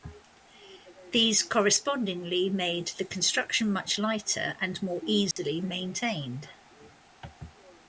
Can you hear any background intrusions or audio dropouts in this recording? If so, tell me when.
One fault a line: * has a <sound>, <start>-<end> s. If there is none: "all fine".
* has a dropout, 5.3-5.4 s